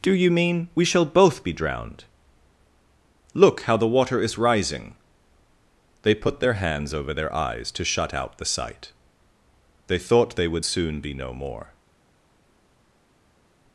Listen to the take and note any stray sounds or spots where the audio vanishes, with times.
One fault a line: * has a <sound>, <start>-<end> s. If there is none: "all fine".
all fine